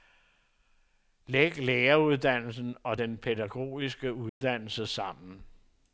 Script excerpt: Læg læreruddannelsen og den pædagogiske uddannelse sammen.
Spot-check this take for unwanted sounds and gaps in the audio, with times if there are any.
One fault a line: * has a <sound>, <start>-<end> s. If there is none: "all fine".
* has a dropout, 4.3-4.4 s